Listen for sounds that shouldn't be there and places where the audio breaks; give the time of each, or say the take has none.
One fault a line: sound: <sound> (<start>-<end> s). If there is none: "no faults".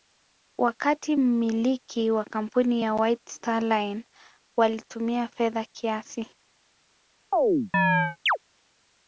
sound: chirp (7.3-8.4 s)